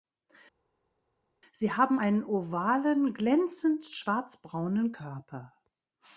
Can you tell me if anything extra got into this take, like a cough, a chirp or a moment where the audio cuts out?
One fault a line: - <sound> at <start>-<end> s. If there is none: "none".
none